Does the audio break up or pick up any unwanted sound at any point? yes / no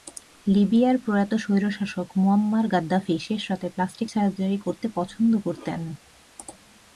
no